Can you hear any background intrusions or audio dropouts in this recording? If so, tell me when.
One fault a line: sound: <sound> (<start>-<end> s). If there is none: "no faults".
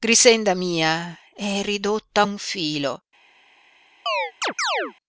sound: chirp (4.1-4.9 s)